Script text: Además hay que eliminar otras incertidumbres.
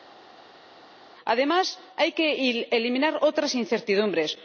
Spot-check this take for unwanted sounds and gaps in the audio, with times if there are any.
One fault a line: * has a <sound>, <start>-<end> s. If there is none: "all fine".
all fine